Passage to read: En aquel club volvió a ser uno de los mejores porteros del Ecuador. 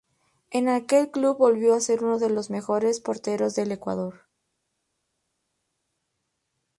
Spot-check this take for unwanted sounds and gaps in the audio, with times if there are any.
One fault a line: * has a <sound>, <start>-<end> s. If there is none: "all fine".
all fine